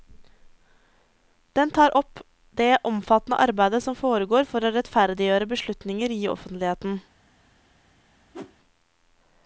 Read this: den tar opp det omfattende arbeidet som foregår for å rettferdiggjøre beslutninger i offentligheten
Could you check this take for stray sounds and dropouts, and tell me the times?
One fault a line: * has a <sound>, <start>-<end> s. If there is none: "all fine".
* has a whoosh, 8.3-8.6 s